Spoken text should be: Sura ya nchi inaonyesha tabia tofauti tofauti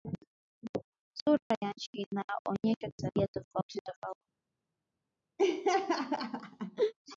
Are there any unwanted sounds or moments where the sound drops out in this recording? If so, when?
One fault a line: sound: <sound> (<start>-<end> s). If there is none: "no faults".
sound: dropout (1.4-1.5 s)
sound: laugh (5.4-6.9 s)